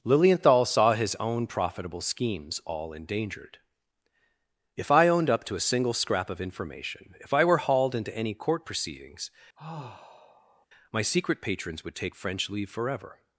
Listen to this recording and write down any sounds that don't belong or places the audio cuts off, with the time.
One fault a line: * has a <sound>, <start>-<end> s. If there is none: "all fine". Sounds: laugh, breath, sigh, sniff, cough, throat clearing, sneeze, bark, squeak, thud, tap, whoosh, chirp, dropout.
* has a sigh, 9.6-10.7 s